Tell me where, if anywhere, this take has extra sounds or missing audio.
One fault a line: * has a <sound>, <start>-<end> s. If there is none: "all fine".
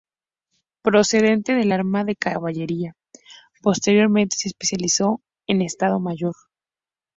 all fine